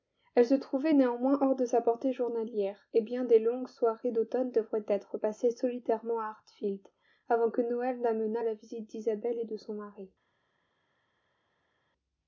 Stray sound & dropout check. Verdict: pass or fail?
pass